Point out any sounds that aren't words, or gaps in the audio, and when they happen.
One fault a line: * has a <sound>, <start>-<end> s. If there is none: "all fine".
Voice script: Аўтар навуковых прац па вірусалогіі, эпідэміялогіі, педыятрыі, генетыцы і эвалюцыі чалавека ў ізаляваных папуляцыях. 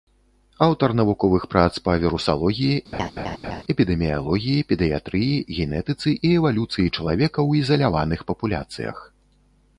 * has a laugh, 2.9-3.6 s